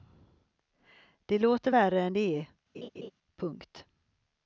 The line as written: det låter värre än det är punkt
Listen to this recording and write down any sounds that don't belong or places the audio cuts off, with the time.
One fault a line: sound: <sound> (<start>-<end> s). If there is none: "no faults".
sound: laugh (2.7-3.1 s)